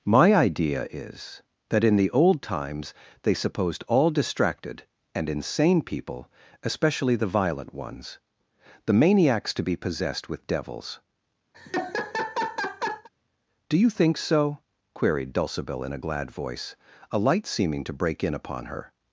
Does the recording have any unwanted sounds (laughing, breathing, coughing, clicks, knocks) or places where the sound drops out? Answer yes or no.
yes